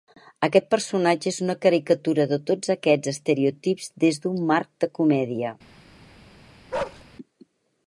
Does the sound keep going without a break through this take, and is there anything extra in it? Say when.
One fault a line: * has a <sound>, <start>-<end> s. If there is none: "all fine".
* has a bark, 6.7-7.0 s